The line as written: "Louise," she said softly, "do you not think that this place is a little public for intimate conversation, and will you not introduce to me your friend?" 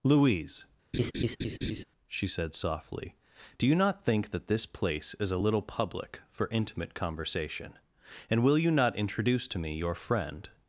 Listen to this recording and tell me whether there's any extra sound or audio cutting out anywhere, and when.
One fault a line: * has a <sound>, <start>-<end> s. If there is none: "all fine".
* has a laugh, 0.9-1.8 s